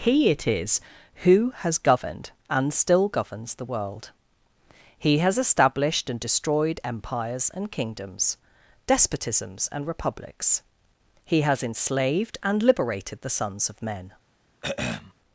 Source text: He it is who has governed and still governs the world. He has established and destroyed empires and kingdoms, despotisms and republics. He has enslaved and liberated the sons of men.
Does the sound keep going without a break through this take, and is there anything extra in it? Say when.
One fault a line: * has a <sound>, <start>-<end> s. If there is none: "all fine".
* has a throat clearing, 14.6-15.1 s